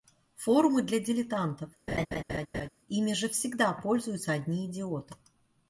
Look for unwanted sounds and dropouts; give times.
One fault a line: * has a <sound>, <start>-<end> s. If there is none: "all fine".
* has a laugh, 1.9-2.7 s